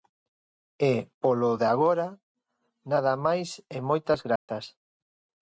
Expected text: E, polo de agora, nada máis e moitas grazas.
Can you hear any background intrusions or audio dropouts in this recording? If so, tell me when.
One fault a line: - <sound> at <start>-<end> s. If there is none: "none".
- dropout at 4.4-4.5 s